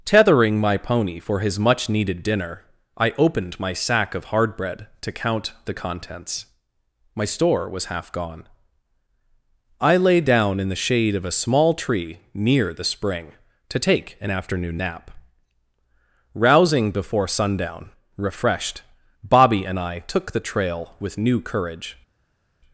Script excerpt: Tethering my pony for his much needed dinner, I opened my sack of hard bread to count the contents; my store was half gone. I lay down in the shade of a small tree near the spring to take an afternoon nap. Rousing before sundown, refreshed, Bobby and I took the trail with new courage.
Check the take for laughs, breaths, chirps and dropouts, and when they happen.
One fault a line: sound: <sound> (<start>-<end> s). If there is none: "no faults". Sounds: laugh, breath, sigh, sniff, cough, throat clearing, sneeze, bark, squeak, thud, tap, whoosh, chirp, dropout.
no faults